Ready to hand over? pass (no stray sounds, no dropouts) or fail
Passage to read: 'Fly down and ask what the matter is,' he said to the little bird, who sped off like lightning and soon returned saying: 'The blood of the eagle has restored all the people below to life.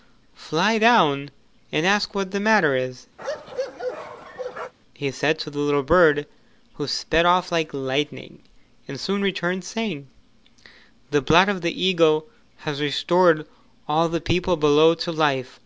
fail